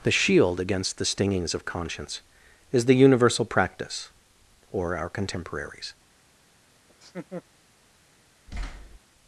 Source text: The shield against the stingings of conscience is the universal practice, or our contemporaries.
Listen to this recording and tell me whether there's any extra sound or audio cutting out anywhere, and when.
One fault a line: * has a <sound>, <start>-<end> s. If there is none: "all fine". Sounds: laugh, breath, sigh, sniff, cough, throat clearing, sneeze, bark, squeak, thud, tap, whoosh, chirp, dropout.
* has a laugh, 6.9-7.4 s
* has a thud, 8.5-9.0 s